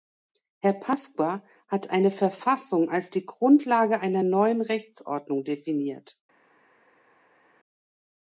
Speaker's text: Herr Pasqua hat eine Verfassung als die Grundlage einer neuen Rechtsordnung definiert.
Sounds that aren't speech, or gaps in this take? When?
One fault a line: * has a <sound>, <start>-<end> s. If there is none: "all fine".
all fine